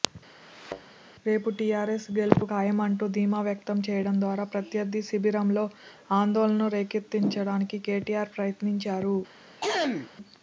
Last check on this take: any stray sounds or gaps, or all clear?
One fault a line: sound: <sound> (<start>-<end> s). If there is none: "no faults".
sound: thud (0.4-0.9 s)
sound: throat clearing (9.6-10.1 s)